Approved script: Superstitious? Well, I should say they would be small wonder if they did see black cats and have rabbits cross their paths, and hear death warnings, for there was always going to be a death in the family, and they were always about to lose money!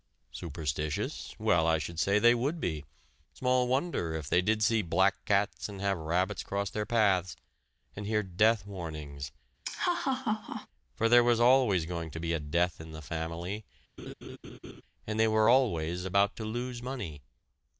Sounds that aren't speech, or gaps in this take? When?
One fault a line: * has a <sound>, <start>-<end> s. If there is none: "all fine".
* has a laugh, 9.6-10.7 s
* has a laugh, 14.0-14.8 s